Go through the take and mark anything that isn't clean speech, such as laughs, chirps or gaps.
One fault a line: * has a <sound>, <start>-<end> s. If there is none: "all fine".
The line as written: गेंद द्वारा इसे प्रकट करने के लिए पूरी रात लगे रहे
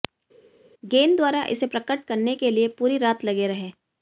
all fine